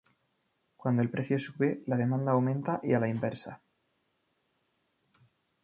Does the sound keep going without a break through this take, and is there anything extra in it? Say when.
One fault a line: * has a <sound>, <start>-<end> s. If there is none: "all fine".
all fine